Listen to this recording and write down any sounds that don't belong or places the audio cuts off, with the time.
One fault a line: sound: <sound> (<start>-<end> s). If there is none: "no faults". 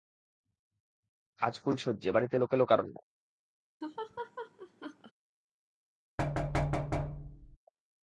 sound: laugh (3.8-5.1 s)
sound: thud (6.2-7.6 s)